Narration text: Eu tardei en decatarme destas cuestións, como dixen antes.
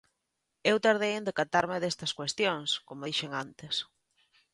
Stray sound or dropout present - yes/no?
no